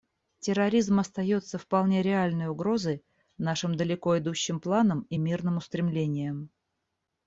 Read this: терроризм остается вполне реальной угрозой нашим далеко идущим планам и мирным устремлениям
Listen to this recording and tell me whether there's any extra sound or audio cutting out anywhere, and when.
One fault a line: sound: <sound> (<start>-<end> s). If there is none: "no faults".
no faults